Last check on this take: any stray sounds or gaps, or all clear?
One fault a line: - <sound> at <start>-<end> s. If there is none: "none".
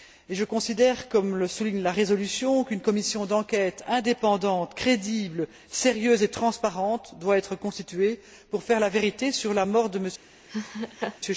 - laugh at 10.5-11.2 s